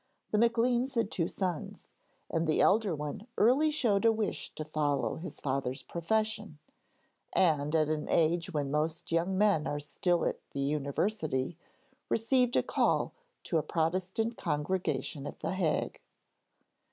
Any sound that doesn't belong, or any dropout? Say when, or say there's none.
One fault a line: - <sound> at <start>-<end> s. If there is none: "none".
none